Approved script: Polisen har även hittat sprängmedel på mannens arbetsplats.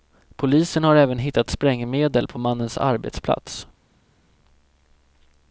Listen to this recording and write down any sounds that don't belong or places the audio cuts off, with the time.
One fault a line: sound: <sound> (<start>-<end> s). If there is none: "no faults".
no faults